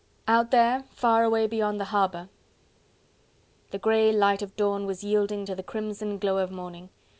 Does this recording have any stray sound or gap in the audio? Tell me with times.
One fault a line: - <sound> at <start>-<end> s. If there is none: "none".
none